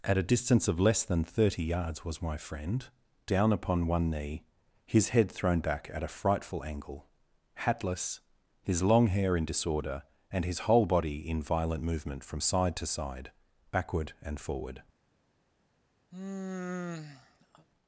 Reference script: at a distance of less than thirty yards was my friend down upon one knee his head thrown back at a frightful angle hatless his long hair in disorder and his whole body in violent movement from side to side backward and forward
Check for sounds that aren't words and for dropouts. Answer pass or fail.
fail